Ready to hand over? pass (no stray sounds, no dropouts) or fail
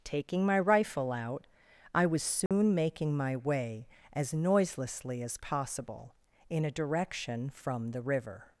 fail